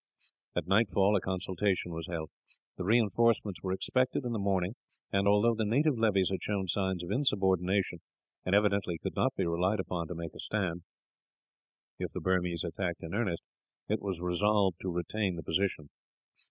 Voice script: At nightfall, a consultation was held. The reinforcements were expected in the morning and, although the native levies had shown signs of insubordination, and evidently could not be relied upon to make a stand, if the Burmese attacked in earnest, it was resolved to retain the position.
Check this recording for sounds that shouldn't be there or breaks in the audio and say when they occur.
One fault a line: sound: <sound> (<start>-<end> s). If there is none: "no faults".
no faults